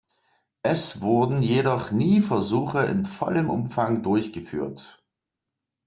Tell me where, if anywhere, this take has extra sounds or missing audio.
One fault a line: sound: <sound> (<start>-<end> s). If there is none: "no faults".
no faults